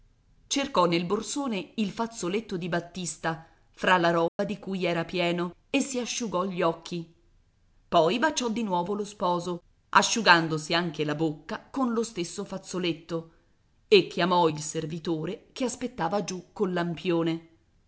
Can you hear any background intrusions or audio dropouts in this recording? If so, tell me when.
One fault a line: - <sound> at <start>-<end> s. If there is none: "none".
- dropout at 4.3-4.4 s